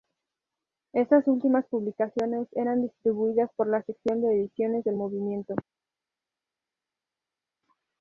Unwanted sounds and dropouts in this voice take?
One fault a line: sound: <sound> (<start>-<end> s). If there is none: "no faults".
no faults